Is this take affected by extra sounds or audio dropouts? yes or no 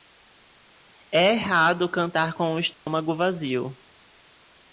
yes